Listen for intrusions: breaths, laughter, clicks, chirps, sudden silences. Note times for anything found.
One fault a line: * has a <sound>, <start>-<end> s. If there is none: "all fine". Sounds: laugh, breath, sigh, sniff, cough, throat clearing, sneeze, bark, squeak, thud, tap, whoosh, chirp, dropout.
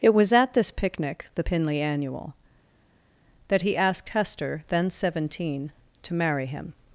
all fine